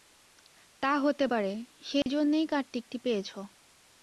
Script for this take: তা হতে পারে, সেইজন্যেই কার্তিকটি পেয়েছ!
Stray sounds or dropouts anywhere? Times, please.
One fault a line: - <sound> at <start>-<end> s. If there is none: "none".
- dropout at 2.0-2.1 s